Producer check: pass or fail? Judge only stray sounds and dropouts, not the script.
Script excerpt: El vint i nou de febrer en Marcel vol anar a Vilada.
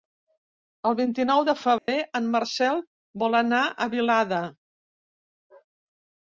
fail